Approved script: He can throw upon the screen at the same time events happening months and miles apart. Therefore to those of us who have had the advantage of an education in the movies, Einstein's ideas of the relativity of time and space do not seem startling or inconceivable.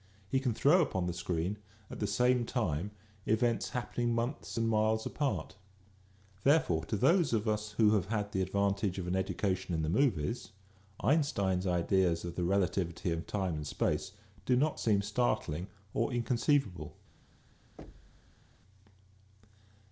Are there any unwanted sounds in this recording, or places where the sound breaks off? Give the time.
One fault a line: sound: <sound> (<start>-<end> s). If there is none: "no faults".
sound: thud (17.8-18.4 s)